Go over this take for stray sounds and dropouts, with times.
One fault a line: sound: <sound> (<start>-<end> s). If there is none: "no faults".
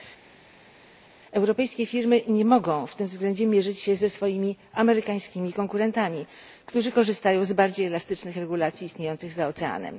no faults